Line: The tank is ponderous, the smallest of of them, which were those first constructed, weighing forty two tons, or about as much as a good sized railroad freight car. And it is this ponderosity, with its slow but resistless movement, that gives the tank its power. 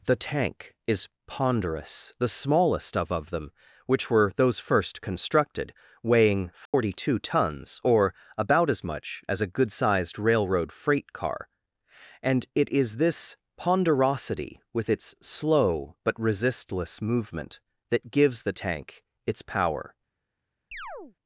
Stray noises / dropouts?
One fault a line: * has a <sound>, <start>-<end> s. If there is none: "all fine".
* has a dropout, 6.7-6.7 s
* has a chirp, 20.7-21.2 s